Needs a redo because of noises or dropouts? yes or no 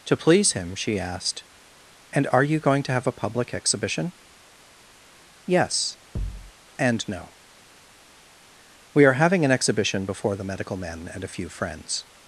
yes